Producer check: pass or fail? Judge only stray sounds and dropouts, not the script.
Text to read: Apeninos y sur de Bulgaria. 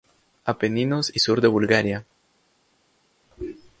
pass